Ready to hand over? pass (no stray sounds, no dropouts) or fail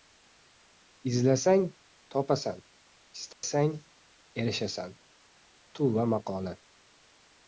fail